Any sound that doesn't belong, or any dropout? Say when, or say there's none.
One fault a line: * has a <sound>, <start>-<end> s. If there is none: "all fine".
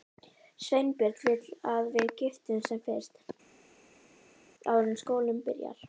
all fine